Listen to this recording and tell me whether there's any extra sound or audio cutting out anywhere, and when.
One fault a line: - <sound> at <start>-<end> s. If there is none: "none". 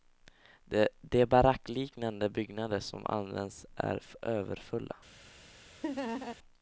- laugh at 5.8-6.4 s